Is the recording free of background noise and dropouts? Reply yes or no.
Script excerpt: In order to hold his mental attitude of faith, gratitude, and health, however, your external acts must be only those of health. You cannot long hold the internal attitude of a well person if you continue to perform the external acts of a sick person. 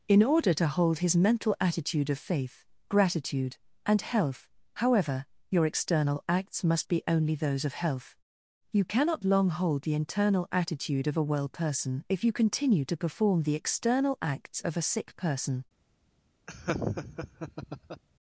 no